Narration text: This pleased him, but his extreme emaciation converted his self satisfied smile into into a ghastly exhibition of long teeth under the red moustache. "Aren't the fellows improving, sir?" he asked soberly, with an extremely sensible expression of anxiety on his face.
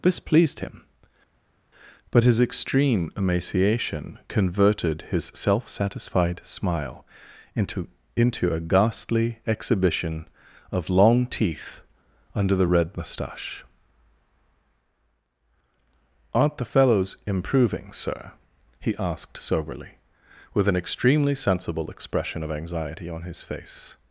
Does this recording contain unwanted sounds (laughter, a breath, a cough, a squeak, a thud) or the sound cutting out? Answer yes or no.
no